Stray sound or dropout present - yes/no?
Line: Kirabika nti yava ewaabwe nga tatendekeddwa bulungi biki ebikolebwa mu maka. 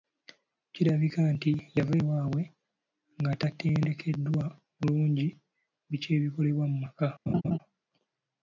yes